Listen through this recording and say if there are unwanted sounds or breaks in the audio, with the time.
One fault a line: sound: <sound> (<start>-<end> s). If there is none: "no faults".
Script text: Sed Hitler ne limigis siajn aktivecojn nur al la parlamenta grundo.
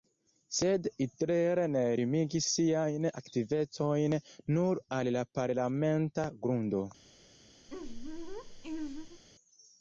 sound: laugh (7.7-9.2 s)